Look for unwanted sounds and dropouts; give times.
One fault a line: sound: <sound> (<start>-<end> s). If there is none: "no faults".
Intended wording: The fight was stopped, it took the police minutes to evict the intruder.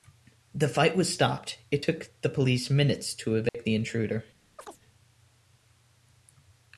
sound: dropout (3.5-3.5 s)
sound: chirp (4.6-4.8 s)